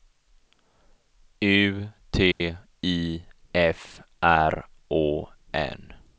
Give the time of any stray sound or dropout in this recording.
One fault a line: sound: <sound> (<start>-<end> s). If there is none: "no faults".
sound: dropout (2.3-2.4 s)